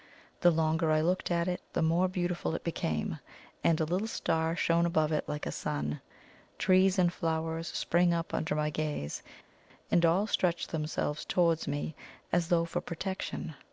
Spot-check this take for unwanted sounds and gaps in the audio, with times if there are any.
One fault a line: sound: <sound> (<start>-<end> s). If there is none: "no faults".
no faults